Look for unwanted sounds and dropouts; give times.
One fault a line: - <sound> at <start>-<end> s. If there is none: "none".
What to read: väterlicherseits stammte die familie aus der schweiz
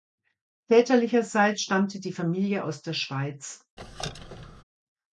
- squeak at 3.8-4.6 s